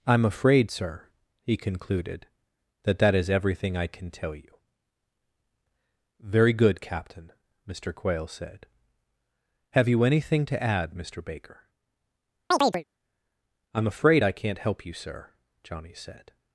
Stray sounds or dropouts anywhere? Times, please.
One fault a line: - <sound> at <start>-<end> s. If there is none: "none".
- chirp at 12.5-12.8 s